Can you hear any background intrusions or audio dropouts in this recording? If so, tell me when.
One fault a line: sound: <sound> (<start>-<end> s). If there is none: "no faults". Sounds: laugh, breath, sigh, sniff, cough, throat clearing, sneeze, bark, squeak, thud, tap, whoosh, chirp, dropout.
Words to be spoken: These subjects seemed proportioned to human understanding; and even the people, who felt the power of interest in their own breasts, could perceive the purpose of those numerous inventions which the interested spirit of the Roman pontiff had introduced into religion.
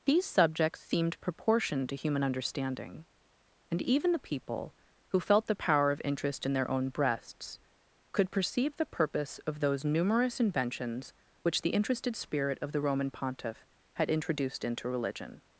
no faults